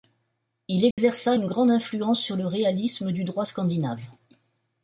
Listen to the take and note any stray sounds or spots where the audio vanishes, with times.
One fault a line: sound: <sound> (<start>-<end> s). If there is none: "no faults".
sound: dropout (0.9-1.0 s)